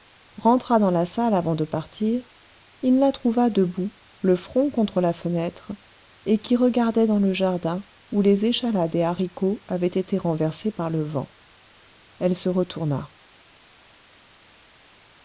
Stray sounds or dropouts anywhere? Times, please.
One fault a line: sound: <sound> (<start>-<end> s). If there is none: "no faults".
no faults